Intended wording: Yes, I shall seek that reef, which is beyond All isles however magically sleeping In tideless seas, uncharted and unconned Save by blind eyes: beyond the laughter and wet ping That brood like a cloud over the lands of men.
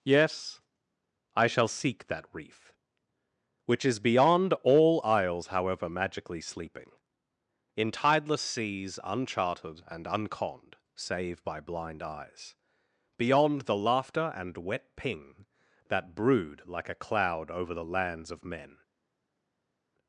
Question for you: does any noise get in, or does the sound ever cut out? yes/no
no